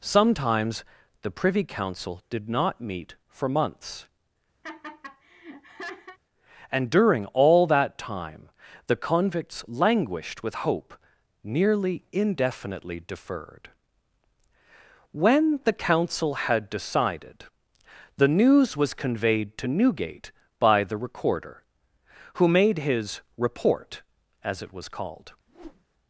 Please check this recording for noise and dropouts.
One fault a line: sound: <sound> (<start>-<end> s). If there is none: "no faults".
sound: laugh (4.6-6.2 s)
sound: whoosh (25.5-25.8 s)